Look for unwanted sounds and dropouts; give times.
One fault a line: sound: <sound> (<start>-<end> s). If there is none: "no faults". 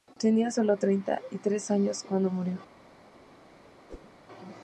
sound: whoosh (3.9-4.1 s)